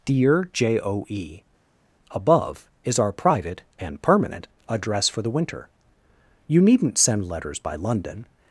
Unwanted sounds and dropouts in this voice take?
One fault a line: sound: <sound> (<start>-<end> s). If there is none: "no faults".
no faults